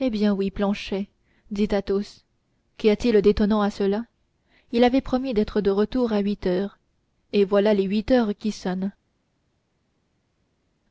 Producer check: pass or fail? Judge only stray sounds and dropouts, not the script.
pass